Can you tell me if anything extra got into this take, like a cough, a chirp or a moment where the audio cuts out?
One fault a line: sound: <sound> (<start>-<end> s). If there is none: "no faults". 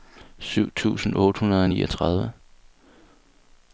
no faults